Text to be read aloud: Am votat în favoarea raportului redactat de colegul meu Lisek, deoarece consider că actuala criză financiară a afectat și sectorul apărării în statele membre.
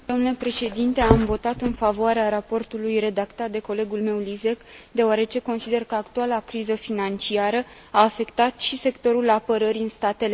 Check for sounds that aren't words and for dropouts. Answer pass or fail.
pass